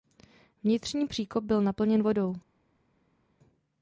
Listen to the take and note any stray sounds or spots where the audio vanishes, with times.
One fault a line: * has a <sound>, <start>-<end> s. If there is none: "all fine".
all fine